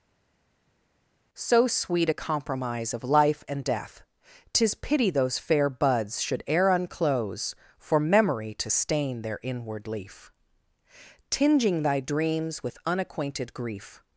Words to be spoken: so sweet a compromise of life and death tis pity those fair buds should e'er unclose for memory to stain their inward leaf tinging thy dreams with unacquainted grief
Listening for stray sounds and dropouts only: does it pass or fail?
pass